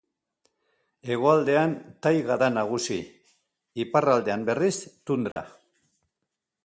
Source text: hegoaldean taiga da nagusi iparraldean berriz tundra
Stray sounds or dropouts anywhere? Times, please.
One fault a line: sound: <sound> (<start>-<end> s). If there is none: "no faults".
sound: dropout (5.3-5.4 s)